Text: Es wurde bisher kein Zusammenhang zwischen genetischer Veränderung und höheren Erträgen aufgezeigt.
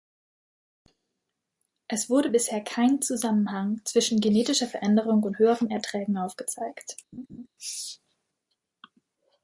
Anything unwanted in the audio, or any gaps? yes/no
yes